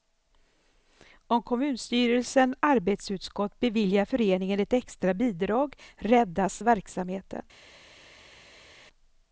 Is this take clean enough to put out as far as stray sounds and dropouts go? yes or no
yes